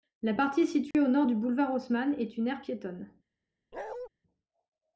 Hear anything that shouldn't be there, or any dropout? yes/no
yes